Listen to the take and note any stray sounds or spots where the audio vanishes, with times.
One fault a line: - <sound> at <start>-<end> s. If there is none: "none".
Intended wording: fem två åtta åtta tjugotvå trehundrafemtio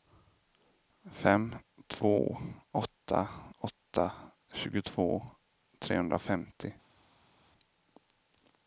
none